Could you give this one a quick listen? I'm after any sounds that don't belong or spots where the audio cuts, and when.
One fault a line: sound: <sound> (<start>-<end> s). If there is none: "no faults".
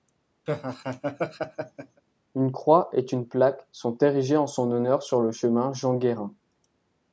sound: laugh (0.5-2.0 s)